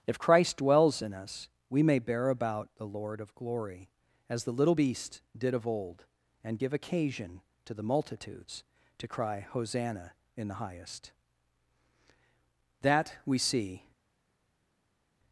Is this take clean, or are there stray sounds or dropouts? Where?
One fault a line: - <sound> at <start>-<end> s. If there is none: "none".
none